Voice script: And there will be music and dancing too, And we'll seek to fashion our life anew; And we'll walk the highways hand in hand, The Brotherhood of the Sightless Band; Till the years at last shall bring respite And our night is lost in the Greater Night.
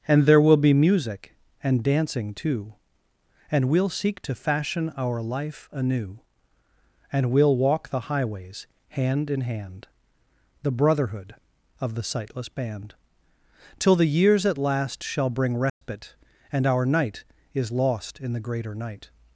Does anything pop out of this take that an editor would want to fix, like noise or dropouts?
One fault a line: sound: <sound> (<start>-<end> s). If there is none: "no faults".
sound: dropout (15.7-15.8 s)